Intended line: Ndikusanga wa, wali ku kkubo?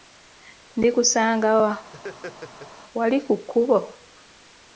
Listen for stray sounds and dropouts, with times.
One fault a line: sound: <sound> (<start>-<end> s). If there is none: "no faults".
sound: laugh (1.9-2.7 s)